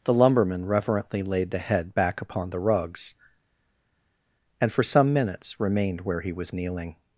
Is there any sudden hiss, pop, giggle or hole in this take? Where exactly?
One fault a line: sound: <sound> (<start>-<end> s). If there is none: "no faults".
no faults